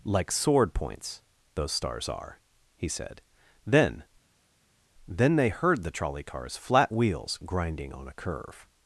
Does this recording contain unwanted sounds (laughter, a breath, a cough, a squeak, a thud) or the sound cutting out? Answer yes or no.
no